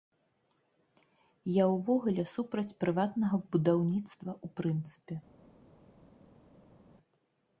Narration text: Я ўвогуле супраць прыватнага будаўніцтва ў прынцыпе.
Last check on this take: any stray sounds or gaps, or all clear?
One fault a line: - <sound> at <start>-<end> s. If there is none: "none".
none